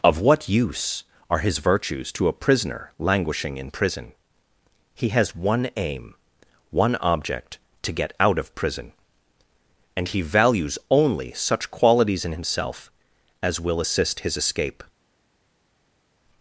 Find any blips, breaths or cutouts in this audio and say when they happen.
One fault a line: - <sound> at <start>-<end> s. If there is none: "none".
none